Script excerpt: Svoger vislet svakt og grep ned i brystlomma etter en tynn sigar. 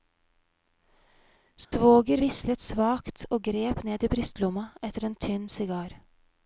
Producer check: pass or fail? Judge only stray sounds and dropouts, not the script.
fail